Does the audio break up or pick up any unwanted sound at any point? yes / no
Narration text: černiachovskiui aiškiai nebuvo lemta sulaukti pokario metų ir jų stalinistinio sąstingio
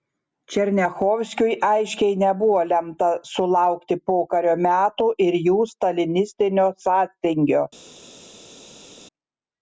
no